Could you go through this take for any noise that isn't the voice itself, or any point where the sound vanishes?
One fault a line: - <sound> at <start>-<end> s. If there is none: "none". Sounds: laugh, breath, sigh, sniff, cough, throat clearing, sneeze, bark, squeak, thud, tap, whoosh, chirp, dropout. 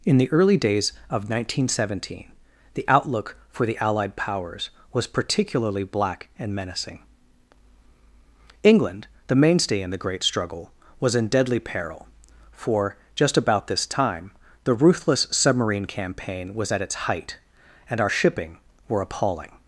none